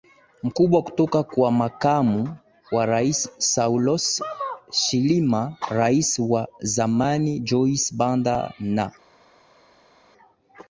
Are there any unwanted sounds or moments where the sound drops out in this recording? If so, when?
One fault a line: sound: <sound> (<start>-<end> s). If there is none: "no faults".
no faults